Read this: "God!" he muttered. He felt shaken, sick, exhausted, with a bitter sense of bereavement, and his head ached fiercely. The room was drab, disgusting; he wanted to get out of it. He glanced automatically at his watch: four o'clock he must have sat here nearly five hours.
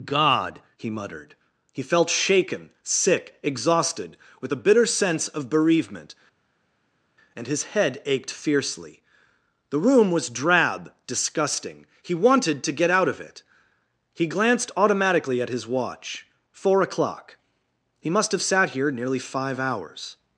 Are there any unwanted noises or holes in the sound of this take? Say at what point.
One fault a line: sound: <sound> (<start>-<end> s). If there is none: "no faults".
no faults